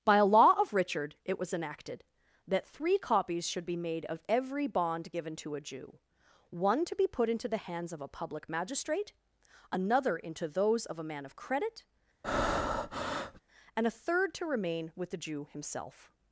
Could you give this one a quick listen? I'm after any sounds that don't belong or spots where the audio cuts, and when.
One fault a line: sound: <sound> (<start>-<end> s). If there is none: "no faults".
sound: breath (12.2-13.4 s)